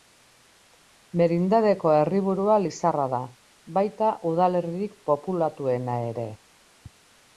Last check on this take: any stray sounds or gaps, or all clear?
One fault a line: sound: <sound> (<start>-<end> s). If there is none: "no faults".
no faults